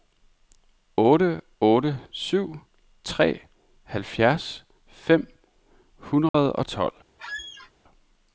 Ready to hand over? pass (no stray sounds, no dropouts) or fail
fail